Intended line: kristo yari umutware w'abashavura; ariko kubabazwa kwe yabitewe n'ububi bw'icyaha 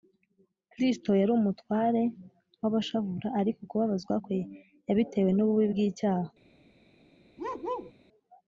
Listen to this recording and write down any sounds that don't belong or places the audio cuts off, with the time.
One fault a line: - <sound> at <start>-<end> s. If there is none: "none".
- bark at 7.4-7.9 s